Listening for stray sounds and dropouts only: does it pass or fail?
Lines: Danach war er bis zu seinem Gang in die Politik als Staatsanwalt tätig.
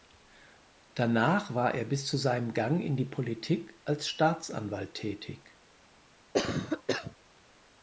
fail